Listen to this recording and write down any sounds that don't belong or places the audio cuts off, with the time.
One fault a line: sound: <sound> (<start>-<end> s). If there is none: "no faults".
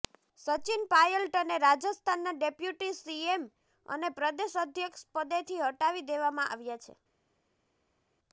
no faults